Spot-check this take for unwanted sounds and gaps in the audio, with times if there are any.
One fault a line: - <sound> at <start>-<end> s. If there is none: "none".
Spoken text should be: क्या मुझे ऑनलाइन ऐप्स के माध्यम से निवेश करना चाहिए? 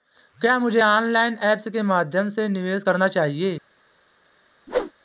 - whoosh at 4.7-4.9 s